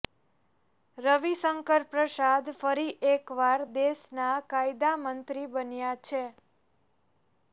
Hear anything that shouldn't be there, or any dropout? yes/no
no